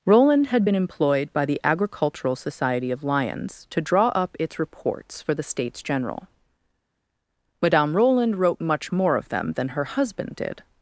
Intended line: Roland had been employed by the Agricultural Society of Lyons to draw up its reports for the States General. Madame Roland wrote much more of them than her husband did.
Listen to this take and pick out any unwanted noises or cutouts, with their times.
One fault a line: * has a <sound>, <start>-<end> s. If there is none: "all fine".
all fine